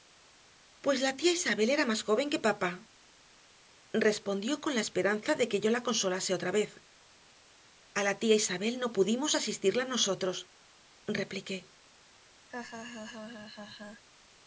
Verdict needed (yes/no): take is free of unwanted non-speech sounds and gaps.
no